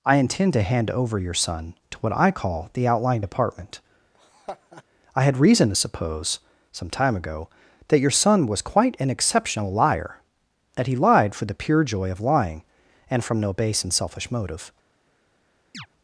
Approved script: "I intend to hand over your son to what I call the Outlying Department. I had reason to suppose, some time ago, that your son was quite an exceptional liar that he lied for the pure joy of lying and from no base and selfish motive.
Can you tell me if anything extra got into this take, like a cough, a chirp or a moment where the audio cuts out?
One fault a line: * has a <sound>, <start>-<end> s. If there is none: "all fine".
* has a laugh, 4.1-4.8 s
* has a chirp, 15.7-15.9 s